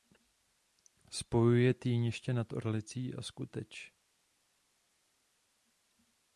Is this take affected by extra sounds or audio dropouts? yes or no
no